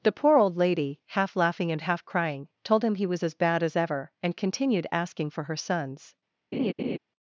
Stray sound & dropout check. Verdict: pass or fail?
fail